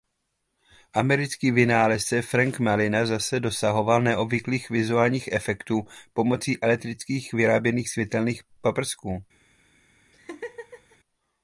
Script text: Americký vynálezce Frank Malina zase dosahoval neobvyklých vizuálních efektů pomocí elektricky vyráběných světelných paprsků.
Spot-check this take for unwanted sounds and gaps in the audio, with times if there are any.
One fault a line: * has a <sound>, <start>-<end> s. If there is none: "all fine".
* has a laugh, 10.1-11.0 s